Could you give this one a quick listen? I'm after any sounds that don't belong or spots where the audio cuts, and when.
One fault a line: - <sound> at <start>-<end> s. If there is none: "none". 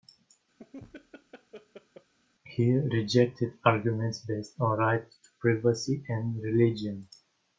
- laugh at 0.6-2.1 s